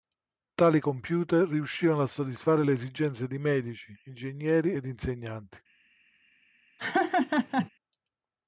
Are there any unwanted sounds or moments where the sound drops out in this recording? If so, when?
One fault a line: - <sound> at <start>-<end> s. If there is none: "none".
- laugh at 6.8-7.7 s